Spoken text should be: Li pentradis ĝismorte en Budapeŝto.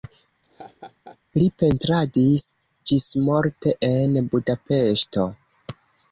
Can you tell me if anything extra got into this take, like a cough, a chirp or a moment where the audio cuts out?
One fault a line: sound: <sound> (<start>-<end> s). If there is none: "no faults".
sound: laugh (0.4-1.2 s)